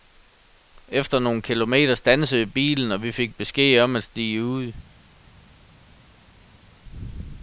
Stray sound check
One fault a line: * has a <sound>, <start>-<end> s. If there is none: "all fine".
all fine